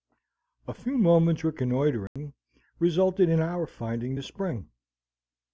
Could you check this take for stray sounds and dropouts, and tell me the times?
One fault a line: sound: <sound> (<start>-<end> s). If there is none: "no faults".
sound: dropout (2.1-2.2 s)